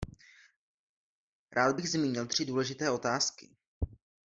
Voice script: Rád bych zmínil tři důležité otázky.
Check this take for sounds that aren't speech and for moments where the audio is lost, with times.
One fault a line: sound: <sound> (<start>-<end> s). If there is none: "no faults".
no faults